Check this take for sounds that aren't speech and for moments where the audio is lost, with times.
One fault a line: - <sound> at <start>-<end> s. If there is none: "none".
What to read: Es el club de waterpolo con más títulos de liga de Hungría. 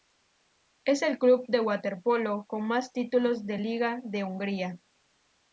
none